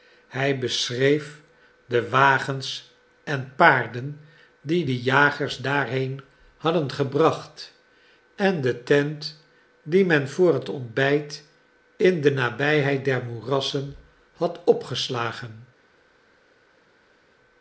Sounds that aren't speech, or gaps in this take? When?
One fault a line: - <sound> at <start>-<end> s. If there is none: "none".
none